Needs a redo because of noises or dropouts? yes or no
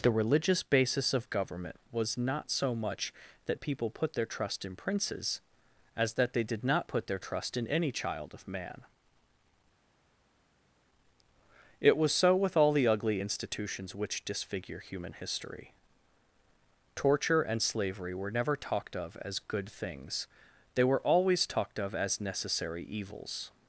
no